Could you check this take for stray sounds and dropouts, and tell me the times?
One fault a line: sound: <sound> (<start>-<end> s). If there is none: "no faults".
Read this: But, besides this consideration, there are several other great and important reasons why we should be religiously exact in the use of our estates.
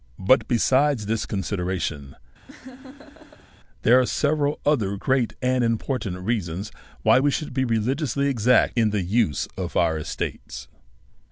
sound: laugh (2.5-3.5 s)